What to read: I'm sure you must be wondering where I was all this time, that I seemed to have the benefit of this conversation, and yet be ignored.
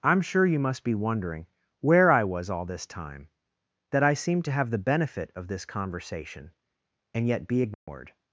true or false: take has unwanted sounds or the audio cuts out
true